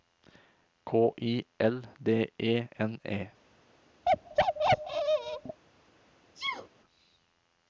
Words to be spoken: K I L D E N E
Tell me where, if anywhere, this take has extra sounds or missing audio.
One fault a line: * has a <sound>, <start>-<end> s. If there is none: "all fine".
* has a bark, 4.1-5.6 s
* has a sneeze, 6.3-6.7 s